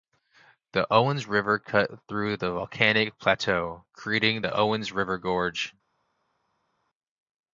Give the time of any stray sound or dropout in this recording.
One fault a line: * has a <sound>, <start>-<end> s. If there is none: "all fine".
all fine